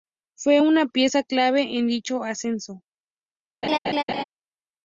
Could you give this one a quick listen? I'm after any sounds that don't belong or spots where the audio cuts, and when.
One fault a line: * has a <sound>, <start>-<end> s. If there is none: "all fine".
* has a laugh, 3.6-4.2 s